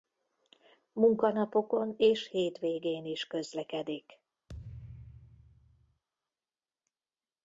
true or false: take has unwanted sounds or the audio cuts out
true